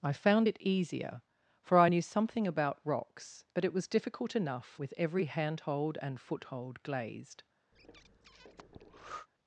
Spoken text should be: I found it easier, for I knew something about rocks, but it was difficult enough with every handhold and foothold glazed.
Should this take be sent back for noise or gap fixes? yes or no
yes